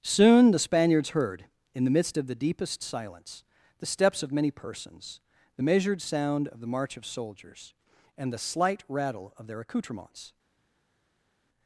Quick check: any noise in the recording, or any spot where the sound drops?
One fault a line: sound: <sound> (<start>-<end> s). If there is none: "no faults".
no faults